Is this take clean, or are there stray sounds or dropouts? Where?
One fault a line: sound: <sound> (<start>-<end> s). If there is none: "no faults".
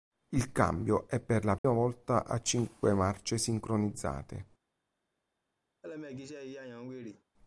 sound: dropout (1.6-1.6 s)
sound: laugh (5.8-7.2 s)